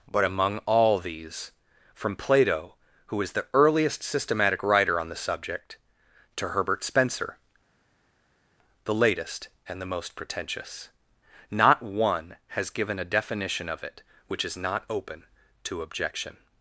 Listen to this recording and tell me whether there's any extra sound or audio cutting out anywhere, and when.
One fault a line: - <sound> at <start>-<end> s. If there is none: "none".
none